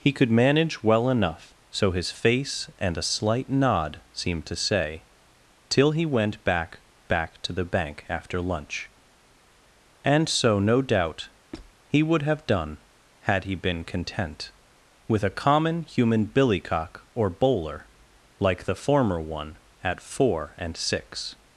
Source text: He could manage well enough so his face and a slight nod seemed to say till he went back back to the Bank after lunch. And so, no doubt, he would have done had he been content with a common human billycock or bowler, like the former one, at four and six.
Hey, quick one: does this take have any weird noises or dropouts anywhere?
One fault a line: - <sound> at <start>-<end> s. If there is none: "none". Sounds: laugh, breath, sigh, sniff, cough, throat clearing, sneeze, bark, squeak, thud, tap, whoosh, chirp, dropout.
- squeak at 11.5-11.7 s